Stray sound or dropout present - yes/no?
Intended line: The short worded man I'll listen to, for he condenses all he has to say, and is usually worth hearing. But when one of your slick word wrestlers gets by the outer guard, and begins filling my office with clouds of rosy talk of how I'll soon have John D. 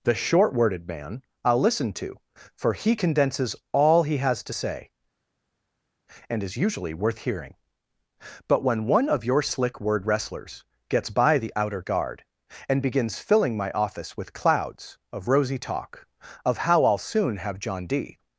no